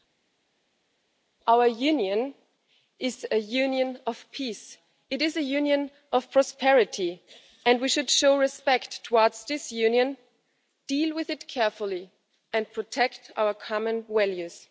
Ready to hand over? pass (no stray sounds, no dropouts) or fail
pass